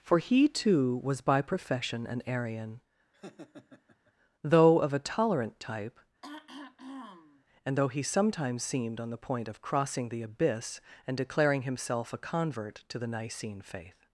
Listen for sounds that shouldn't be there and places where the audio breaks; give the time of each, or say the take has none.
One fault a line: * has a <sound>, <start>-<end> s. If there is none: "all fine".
* has a laugh, 3.1-4.1 s
* has a throat clearing, 6.2-7.4 s